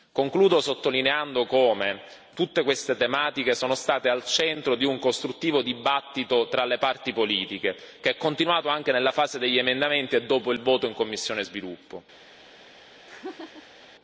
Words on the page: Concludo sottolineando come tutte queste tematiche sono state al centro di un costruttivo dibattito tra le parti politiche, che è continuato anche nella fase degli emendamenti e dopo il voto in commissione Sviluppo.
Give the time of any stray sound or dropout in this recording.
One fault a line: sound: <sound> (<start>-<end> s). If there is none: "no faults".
sound: laugh (13.1-13.9 s)